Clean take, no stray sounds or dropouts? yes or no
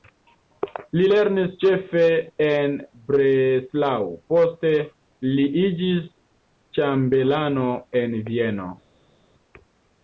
yes